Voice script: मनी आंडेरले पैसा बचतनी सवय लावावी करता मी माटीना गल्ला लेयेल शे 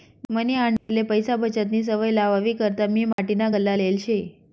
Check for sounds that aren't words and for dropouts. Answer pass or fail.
fail